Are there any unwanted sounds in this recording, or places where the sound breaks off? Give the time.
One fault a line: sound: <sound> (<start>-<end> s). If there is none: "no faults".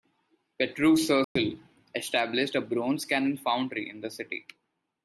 sound: dropout (1.2-1.4 s)